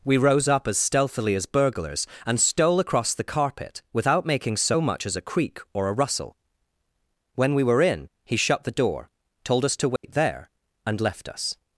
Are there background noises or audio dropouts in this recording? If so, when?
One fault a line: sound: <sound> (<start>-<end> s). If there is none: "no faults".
sound: dropout (10.0-10.0 s)